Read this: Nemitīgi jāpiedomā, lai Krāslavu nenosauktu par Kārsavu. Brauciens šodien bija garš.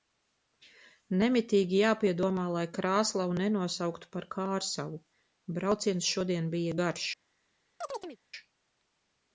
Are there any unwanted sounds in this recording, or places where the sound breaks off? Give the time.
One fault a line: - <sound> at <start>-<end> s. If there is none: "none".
- chirp at 7.8-8.2 s